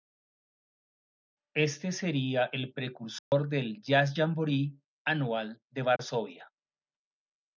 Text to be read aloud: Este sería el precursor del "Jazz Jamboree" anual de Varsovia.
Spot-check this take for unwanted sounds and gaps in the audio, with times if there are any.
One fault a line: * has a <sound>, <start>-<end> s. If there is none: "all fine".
* has a dropout, 3.2-3.3 s
* has a dropout, 6.0-6.0 s